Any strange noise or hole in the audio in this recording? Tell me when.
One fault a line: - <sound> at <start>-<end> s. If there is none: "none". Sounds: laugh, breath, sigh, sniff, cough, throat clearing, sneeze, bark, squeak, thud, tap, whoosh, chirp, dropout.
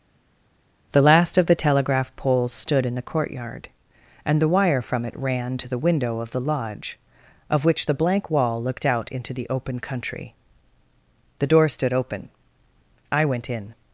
none